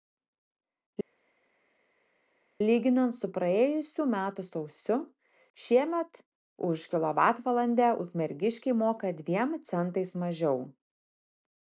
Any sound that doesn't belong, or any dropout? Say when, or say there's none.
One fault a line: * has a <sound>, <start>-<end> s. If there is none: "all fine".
all fine